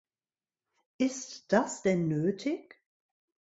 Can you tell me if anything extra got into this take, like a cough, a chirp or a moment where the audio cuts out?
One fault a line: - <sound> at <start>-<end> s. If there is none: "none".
none